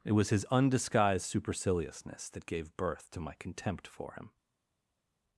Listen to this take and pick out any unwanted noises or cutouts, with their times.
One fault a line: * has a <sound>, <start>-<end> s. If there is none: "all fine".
all fine